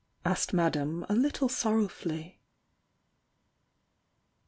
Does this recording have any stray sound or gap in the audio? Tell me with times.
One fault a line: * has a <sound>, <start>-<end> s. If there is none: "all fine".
all fine